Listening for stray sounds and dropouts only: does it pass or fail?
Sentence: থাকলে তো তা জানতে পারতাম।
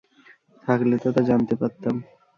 pass